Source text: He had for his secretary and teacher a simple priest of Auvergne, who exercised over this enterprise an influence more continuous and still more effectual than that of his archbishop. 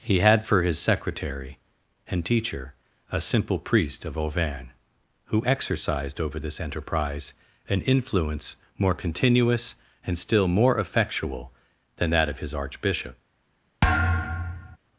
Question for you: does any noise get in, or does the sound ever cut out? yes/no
yes